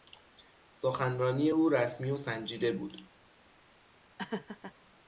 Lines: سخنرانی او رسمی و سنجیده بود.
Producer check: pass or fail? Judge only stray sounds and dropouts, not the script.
fail